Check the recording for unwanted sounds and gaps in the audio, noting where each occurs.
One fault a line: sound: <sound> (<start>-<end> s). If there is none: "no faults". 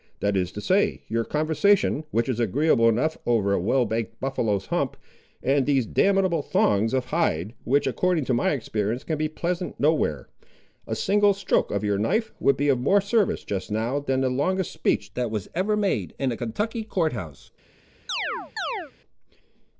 sound: chirp (18.1-18.9 s)